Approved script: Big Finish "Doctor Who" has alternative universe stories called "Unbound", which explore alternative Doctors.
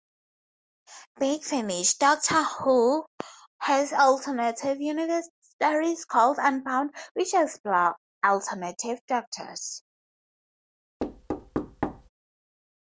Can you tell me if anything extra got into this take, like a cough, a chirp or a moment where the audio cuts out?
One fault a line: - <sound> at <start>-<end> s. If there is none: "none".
- thud at 11.0-12.1 s